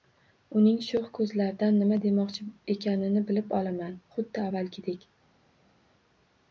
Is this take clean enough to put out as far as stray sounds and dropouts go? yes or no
yes